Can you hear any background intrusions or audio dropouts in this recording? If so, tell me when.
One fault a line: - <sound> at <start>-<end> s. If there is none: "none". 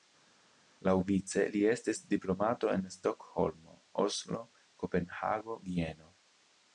none